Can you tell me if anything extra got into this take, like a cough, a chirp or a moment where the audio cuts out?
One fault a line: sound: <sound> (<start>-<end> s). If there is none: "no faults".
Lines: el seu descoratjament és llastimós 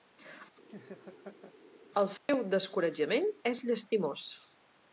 sound: laugh (0.7-1.6 s)
sound: dropout (2.2-2.3 s)